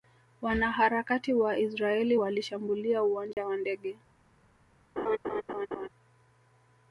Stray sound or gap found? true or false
true